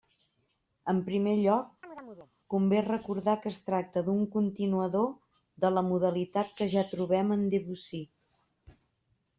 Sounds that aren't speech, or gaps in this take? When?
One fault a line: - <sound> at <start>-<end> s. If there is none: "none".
- chirp at 1.8-2.3 s